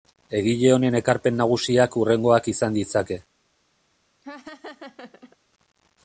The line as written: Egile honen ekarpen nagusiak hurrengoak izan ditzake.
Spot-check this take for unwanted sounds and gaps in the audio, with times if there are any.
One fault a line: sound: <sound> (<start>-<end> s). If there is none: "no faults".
sound: laugh (4.2-5.4 s)